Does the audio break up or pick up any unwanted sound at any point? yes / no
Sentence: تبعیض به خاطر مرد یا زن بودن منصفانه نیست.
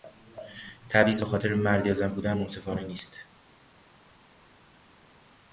no